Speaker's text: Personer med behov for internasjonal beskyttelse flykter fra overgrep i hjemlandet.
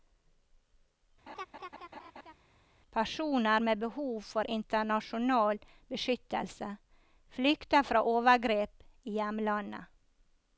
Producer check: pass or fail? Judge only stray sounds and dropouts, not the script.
fail